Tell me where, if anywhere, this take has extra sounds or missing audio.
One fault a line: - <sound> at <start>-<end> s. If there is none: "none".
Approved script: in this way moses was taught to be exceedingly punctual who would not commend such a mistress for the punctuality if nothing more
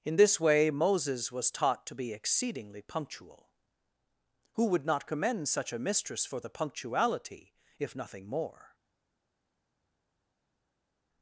none